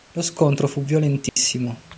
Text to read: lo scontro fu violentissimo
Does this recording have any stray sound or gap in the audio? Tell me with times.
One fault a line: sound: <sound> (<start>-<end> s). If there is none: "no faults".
sound: dropout (1.3-1.4 s)